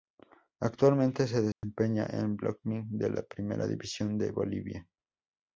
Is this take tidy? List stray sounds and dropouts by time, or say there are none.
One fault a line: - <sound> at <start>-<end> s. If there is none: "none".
- dropout at 1.5-1.6 s